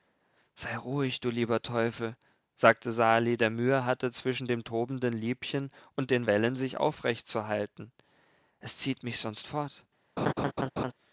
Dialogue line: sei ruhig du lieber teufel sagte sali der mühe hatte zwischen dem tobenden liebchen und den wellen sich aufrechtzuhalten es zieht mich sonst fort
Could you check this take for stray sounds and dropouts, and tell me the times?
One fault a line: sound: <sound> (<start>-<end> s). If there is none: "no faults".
sound: laugh (10.2-10.9 s)